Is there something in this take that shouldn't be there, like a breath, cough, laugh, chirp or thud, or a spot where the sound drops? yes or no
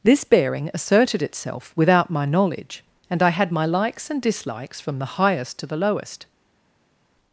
no